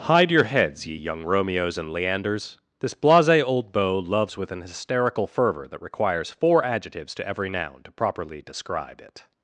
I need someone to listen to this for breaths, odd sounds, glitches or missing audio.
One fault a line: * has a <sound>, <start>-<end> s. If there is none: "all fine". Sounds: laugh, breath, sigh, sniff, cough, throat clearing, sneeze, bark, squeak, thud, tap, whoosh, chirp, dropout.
all fine